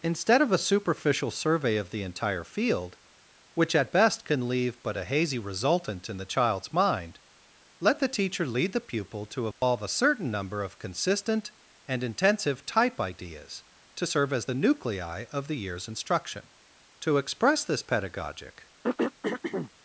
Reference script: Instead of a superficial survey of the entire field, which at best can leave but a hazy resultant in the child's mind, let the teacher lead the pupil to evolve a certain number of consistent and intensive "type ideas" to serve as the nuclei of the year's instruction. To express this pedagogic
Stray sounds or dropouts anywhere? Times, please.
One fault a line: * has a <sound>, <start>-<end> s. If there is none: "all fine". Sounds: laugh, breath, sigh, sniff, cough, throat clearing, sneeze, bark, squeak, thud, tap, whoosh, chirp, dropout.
* has a dropout, 9.5-9.6 s
* has a throat clearing, 18.8-19.7 s